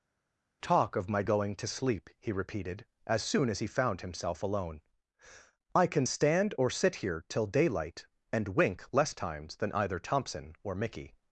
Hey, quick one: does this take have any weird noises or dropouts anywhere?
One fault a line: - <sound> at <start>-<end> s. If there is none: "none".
none